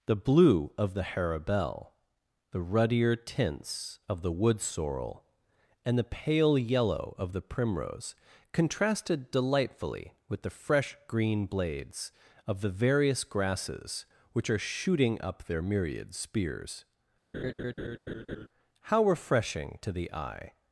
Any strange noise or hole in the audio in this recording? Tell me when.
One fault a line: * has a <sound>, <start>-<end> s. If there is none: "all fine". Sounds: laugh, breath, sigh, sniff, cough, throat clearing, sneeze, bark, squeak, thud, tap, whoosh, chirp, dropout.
* has a laugh, 17.3-18.5 s